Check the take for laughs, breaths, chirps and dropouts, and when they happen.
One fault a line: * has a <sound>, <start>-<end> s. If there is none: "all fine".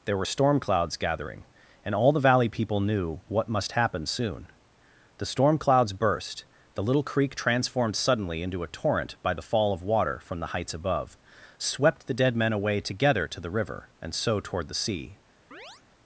* has a chirp, 15.5-15.8 s